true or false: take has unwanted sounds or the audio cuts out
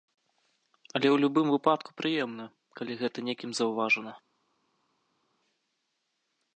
false